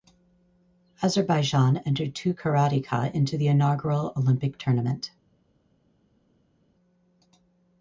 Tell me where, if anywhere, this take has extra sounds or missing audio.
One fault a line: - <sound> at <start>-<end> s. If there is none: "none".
none